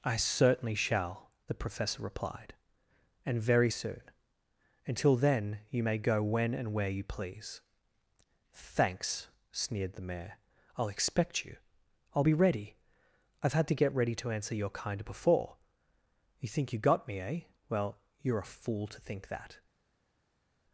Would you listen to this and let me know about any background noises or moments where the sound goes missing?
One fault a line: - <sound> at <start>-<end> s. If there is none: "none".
none